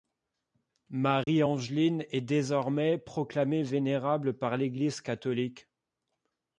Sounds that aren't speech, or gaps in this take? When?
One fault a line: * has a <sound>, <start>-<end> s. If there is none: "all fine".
* has a dropout, 1.2-1.3 s